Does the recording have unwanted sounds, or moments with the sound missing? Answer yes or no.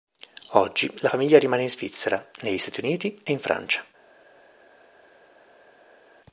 no